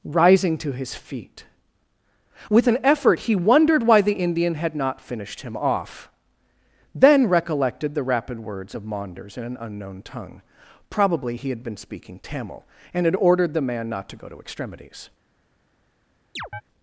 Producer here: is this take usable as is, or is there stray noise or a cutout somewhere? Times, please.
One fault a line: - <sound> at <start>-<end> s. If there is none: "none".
- chirp at 16.4-16.6 s